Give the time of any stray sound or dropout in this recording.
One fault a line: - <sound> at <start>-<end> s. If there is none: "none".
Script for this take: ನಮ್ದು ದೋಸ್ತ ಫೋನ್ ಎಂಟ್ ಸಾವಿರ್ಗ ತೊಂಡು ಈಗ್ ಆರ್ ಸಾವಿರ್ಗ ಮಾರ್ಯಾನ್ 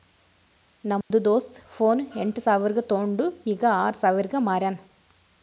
- dropout at 1.0-1.1 s